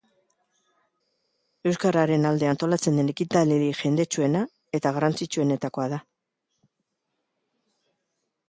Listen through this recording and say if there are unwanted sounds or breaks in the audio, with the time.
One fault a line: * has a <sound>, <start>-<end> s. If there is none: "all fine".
all fine